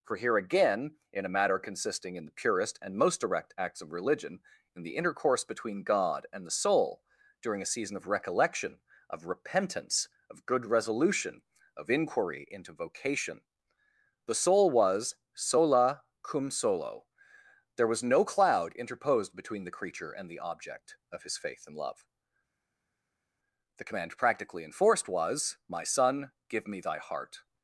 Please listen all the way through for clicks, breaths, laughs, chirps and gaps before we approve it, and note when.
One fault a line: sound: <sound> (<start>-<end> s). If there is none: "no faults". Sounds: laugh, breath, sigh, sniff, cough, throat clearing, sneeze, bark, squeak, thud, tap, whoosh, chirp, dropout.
no faults